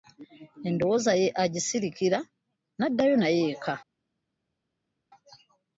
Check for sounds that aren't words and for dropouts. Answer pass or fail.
pass